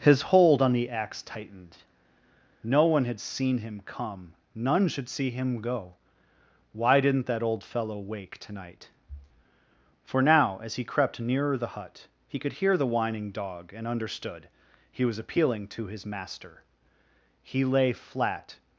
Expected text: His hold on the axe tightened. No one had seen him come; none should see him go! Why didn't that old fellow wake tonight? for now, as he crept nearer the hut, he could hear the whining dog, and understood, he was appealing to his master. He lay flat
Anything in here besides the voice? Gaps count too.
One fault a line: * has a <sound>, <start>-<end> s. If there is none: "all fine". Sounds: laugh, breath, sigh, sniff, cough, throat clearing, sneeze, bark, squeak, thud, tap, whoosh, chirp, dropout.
all fine